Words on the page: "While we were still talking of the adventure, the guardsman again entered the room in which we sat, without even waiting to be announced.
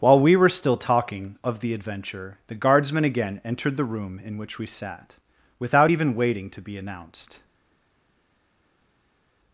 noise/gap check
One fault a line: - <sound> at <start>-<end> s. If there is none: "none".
none